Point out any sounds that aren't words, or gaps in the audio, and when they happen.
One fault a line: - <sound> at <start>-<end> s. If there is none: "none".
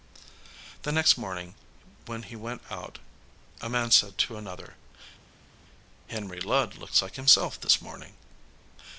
none